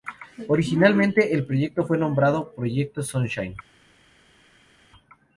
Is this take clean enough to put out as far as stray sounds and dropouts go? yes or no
yes